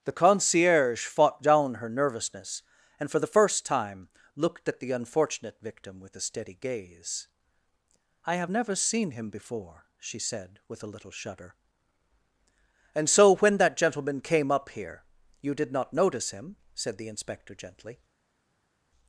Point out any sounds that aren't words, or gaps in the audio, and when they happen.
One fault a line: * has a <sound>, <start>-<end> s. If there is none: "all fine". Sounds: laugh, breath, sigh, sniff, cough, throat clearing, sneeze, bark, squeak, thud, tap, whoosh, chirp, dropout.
all fine